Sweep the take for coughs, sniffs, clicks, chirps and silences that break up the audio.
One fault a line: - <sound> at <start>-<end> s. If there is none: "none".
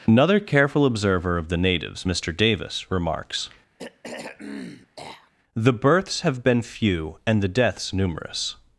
- throat clearing at 3.8-5.3 s